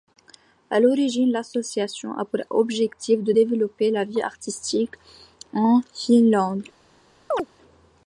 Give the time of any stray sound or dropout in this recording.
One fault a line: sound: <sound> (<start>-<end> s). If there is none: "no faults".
sound: chirp (7.3-7.5 s)